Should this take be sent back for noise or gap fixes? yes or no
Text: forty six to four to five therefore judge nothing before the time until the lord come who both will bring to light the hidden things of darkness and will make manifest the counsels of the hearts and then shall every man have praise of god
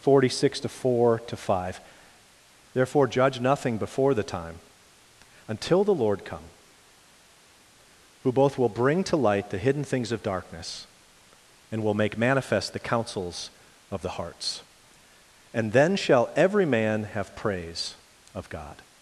no